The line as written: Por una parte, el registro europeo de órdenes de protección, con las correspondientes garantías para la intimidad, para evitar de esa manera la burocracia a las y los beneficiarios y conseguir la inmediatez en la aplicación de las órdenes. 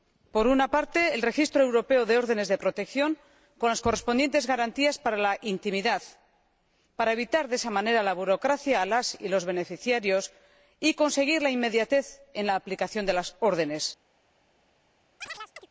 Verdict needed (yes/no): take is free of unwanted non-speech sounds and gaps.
no